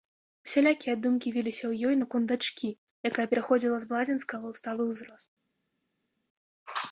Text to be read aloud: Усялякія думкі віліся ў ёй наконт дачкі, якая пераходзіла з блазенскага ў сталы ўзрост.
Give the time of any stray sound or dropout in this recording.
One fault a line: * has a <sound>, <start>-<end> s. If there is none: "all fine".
all fine